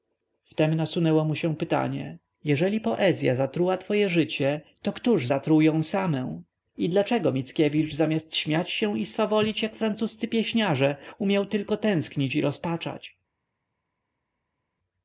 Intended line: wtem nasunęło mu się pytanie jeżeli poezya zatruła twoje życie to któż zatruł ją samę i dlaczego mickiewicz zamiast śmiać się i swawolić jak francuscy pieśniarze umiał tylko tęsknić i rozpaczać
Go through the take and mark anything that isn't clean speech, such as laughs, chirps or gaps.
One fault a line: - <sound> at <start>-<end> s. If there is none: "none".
none